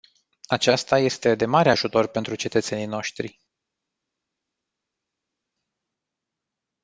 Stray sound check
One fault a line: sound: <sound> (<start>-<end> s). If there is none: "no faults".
no faults